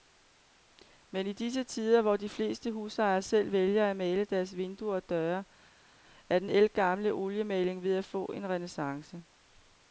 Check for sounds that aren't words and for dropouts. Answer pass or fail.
pass